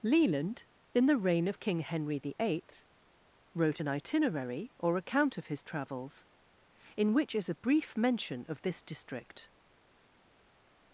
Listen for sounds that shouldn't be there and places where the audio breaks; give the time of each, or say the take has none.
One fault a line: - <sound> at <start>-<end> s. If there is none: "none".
none